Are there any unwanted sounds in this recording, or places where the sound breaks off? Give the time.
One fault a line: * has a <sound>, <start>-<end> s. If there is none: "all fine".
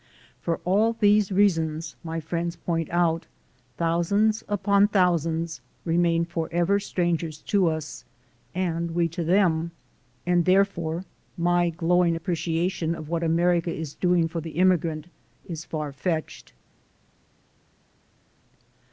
all fine